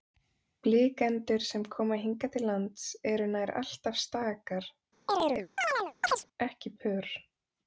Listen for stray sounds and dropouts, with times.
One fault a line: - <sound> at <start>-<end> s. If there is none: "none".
- chirp at 5.1-6.3 s